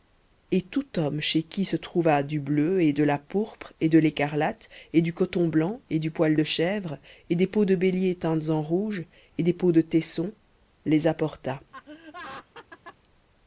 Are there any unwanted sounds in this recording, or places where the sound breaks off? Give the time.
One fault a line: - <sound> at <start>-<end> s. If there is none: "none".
- laugh at 11.7-13.0 s